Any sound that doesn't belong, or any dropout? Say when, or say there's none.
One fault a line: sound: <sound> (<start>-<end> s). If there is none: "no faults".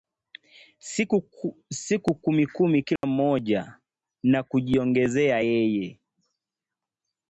sound: dropout (3.0-3.0 s)